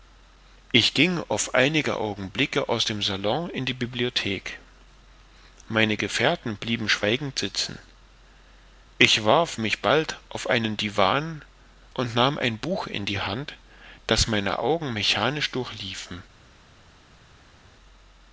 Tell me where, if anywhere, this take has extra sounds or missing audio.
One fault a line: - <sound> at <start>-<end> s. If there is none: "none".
none